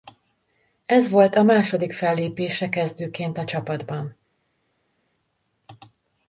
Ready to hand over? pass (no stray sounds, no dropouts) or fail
pass